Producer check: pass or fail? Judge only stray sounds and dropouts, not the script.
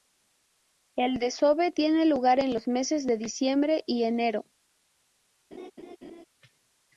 fail